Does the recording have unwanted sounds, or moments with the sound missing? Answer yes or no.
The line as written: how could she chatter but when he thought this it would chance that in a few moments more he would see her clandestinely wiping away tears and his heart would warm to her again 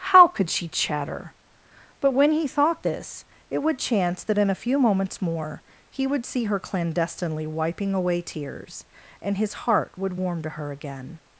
no